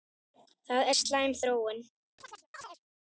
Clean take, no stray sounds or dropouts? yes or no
no